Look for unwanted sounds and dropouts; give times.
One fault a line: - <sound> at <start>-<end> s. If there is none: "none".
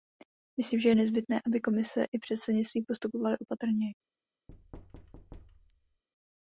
- thud at 4.5-6.0 s